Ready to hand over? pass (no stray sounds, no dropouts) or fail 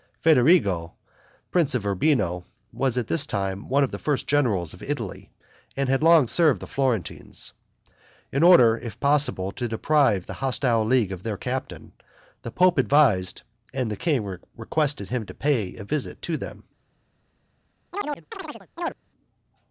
fail